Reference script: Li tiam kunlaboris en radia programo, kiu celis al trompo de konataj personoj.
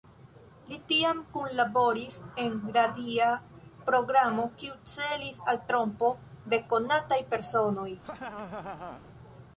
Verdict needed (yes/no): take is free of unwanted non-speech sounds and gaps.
no